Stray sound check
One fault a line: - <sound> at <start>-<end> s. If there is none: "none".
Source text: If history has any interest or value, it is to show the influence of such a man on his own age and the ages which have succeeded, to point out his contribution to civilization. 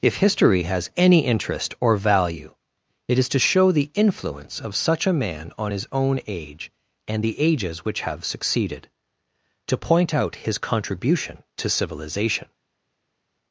none